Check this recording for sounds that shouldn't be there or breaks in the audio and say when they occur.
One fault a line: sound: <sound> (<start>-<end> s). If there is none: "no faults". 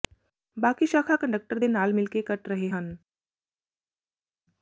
no faults